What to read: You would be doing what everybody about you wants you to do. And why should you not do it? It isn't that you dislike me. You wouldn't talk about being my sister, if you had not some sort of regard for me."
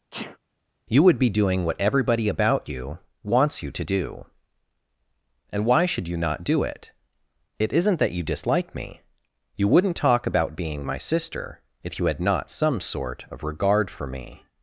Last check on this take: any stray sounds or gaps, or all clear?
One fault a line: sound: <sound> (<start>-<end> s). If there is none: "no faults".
sound: sneeze (0.1-0.4 s)